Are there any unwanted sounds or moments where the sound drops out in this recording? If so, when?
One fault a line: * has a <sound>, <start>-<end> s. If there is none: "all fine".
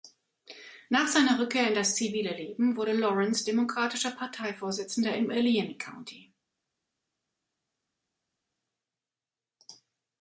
all fine